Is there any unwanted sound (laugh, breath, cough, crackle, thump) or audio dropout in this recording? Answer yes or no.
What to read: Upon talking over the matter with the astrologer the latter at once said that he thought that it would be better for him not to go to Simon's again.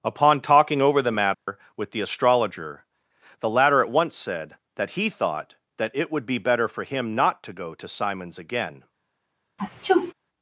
yes